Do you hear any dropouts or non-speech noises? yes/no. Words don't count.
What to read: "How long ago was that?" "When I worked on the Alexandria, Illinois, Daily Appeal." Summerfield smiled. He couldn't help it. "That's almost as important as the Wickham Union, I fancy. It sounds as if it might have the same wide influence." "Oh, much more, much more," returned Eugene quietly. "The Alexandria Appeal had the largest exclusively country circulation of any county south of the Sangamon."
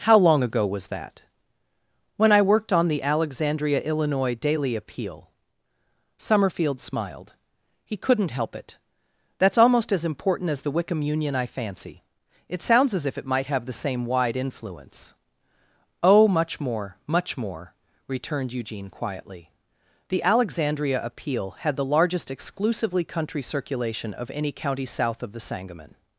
no